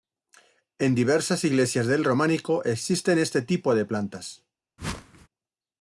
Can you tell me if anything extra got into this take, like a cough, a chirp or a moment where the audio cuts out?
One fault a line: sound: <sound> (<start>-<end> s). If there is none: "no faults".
sound: whoosh (4.8-5.3 s)